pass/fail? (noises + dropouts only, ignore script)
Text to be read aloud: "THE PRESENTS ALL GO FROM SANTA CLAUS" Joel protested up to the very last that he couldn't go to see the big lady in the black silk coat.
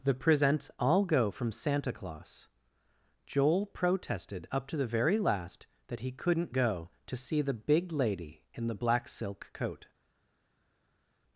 pass